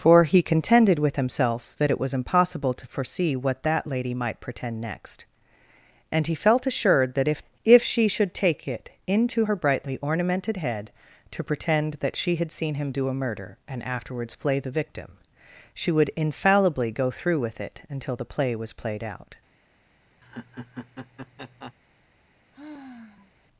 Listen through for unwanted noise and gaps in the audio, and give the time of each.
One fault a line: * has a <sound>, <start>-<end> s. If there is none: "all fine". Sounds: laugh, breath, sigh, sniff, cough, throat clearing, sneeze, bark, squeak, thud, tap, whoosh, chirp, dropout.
* has a laugh, 20.2-21.7 s
* has a sigh, 22.5-23.3 s